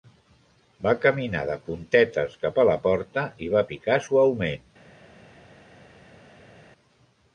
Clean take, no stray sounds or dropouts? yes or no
yes